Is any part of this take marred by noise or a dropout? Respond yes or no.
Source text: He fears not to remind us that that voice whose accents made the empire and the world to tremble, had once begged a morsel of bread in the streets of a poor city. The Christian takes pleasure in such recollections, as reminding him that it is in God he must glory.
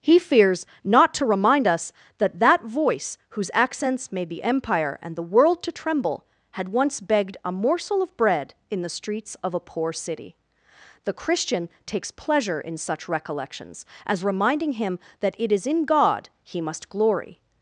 no